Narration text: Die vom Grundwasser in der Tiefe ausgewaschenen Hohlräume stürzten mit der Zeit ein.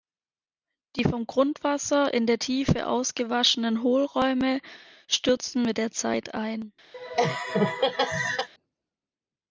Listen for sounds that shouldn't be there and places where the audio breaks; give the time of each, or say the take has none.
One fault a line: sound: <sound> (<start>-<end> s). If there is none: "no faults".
sound: laugh (6.9-8.5 s)